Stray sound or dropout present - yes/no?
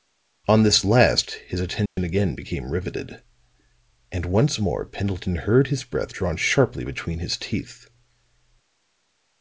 yes